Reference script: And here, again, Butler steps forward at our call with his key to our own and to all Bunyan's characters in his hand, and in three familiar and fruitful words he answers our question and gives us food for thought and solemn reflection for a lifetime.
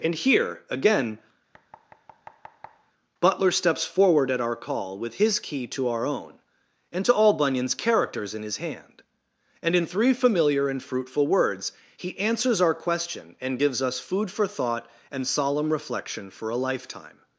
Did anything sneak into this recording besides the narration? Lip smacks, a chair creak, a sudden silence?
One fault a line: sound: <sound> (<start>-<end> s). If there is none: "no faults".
sound: thud (1.5-2.9 s)